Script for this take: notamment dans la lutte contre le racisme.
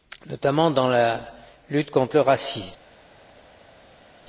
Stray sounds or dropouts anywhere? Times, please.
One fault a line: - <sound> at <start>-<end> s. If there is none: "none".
none